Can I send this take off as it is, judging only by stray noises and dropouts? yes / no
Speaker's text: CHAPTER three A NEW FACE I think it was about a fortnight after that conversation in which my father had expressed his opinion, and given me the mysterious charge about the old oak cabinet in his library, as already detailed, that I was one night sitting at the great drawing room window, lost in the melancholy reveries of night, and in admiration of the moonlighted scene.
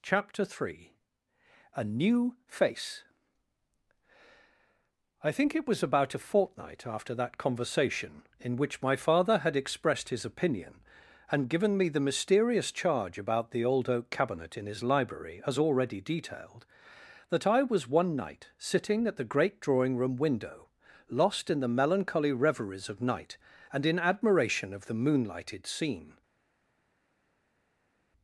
yes